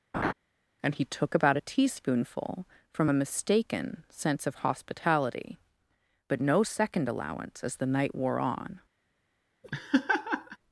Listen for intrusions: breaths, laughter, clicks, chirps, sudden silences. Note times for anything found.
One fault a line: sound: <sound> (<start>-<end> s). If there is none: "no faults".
sound: laugh (0.1-0.3 s)
sound: laugh (9.6-10.6 s)